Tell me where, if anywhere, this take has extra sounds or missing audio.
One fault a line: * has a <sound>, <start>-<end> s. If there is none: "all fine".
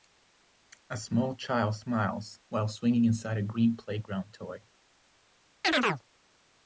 * has a chirp, 5.6-6.0 s